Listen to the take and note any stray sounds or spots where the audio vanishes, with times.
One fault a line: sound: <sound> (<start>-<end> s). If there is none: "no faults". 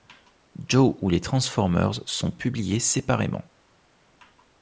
no faults